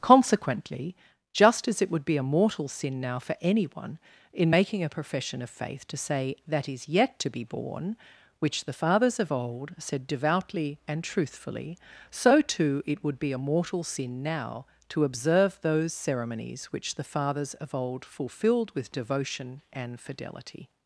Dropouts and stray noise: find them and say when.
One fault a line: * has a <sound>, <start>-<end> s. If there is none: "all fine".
all fine